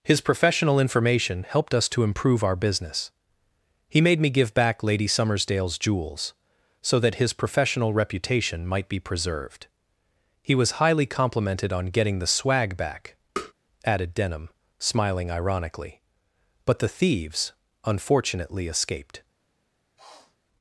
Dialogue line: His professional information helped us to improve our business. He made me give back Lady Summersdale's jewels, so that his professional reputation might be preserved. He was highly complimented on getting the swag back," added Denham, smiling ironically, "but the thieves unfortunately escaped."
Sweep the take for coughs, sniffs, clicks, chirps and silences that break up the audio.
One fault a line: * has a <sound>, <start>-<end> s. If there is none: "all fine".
* has a tap, 13.4-13.5 s
* has a sniff, 20.0-20.4 s